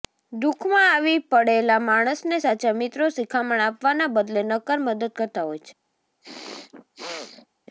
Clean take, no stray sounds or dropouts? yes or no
no